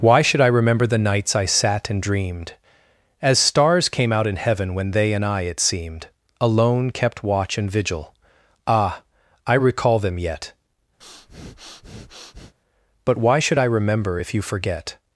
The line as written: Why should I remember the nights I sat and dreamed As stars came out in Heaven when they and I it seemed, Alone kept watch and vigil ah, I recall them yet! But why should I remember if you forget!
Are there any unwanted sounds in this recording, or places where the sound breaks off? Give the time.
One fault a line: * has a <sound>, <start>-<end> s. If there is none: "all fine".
* has a breath, 11.0-12.5 s